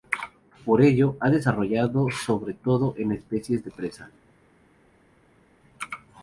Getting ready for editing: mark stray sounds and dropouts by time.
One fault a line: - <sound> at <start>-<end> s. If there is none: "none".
none